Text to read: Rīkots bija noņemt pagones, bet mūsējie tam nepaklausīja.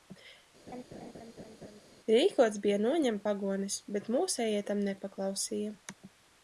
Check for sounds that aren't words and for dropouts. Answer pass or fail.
fail